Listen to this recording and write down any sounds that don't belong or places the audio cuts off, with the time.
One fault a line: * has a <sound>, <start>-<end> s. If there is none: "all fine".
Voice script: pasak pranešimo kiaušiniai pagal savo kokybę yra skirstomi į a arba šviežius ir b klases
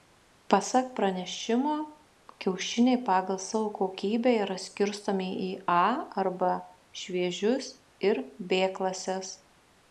all fine